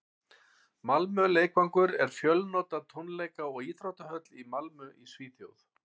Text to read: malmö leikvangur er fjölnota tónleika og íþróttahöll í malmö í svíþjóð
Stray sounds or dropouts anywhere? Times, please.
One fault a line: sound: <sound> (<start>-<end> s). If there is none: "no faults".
no faults